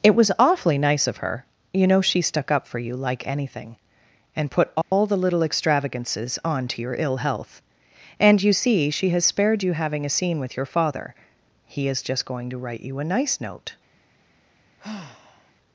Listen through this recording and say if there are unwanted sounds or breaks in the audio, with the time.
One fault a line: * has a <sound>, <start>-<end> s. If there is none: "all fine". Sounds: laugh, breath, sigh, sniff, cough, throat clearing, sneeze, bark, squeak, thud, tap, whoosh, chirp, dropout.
* has a dropout, 4.8-4.9 s
* has a sigh, 14.8-15.5 s